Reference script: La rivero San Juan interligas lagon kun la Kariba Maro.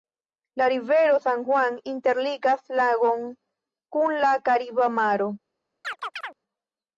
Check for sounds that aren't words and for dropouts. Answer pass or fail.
fail